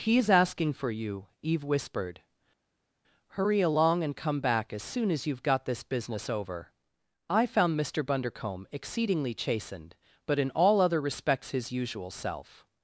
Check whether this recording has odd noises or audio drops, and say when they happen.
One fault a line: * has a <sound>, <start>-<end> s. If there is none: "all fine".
all fine